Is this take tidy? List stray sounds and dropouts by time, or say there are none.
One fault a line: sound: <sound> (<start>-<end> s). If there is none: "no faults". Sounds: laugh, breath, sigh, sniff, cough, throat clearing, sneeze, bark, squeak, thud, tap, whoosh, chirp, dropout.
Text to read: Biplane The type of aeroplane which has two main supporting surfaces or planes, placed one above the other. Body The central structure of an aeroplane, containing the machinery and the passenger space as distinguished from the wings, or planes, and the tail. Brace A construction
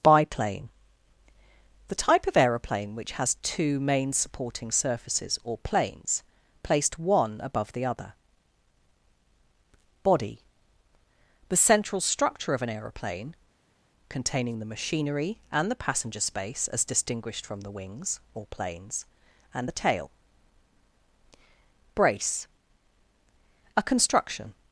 no faults